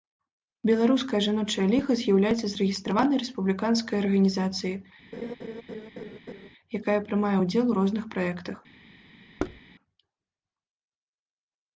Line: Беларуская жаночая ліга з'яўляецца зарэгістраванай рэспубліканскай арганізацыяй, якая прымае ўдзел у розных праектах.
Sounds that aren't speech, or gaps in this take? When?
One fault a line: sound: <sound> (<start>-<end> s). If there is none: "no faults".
sound: laugh (5.1-6.5 s)
sound: thud (9.4-9.6 s)